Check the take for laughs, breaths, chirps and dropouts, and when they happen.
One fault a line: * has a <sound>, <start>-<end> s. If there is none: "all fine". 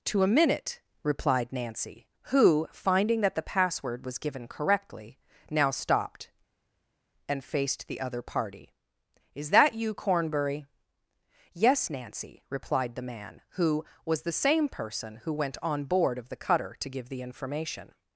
all fine